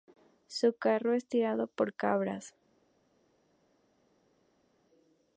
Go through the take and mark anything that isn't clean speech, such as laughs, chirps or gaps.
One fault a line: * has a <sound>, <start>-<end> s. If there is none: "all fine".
all fine